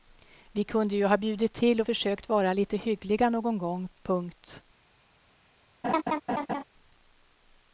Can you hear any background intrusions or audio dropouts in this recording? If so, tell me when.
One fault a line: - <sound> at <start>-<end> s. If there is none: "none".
- laugh at 5.8-6.6 s